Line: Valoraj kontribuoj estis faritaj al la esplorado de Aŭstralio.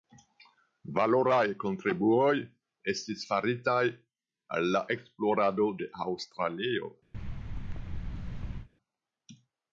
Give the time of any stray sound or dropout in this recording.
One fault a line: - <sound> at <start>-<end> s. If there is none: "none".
- thud at 7.1-8.7 s